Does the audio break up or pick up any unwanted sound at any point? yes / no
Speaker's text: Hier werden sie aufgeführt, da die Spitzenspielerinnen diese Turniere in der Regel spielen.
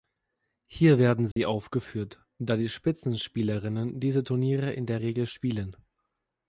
yes